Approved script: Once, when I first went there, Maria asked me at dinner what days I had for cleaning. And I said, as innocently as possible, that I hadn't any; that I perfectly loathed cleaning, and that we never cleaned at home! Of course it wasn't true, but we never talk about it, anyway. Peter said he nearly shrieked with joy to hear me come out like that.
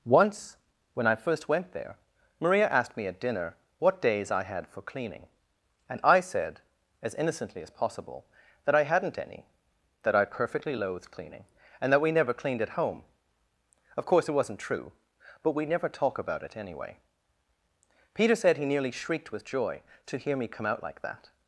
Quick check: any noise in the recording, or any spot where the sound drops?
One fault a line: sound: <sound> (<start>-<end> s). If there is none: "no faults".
no faults